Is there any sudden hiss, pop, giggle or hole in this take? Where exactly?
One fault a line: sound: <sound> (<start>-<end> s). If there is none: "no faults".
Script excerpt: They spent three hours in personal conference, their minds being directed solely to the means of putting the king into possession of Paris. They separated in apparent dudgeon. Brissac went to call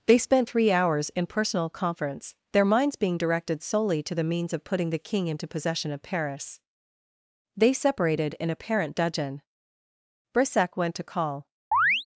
sound: chirp (11.7-12.1 s)